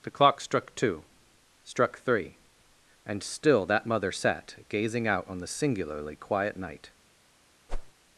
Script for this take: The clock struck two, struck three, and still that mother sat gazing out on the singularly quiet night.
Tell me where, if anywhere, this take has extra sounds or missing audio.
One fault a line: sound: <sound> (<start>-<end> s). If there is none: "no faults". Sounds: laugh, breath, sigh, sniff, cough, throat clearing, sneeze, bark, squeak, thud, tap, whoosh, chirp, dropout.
sound: whoosh (7.7-7.9 s)